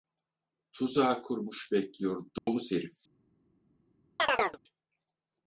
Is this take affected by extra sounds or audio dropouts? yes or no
yes